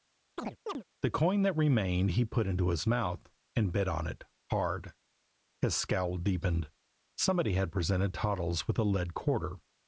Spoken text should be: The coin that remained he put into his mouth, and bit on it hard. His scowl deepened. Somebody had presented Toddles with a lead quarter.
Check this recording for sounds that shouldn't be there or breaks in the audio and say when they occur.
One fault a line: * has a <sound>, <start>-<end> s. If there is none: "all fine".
* has a chirp, 0.4-0.8 s